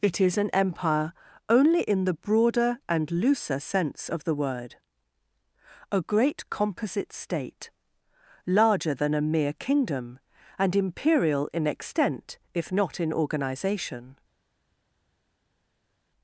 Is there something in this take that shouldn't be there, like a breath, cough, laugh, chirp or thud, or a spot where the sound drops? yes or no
no